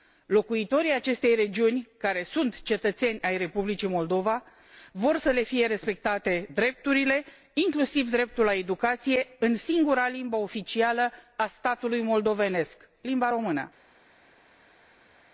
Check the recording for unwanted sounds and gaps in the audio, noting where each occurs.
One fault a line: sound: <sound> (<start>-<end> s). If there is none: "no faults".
no faults